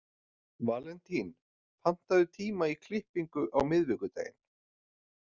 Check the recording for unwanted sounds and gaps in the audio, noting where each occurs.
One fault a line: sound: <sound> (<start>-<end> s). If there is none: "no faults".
no faults